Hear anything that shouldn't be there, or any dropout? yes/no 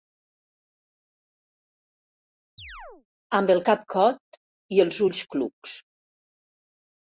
yes